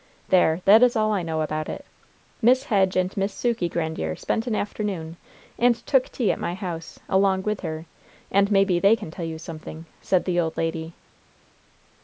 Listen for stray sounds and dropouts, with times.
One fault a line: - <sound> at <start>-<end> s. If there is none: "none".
none